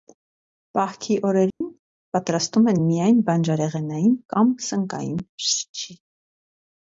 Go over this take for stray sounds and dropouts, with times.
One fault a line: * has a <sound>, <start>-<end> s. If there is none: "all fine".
* has a dropout, 1.5-1.6 s